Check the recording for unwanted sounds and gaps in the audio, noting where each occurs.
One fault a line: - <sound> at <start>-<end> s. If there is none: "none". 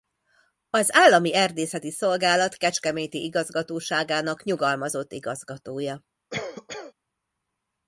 - cough at 6.3-6.9 s